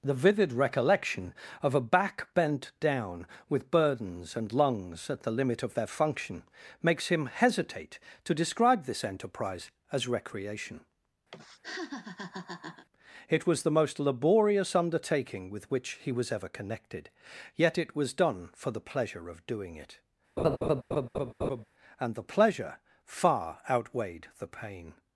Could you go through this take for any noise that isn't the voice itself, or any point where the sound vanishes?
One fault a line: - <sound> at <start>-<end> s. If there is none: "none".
- laugh at 11.3-12.9 s
- laugh at 20.4-21.6 s